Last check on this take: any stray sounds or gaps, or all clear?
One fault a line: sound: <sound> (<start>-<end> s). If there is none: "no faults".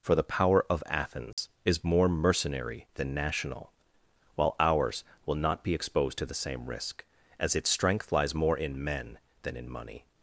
sound: dropout (1.3-1.4 s)